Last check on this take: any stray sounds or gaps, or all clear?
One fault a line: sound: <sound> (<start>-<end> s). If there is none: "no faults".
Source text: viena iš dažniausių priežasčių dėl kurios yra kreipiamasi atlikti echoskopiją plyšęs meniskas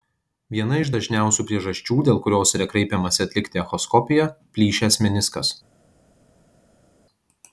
no faults